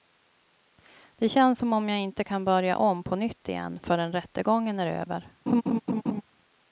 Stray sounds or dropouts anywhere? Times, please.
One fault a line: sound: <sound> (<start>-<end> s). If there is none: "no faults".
sound: laugh (5.5-6.2 s)